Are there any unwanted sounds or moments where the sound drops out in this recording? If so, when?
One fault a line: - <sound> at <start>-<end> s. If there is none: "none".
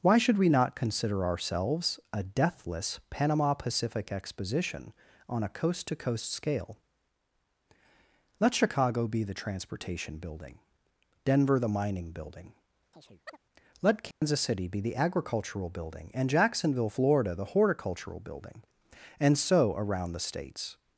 - chirp at 12.9-13.4 s
- dropout at 14.1-14.2 s